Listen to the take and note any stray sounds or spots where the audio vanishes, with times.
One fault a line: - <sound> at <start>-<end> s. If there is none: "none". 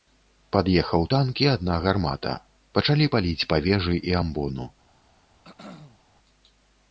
- throat clearing at 5.4-6.0 s